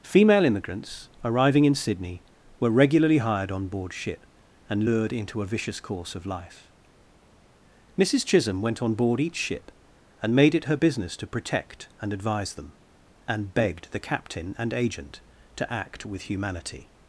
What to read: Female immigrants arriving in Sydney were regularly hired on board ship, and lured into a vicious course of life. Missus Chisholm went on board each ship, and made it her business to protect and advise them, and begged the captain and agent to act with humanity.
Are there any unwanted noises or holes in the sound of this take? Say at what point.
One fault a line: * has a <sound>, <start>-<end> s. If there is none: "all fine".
all fine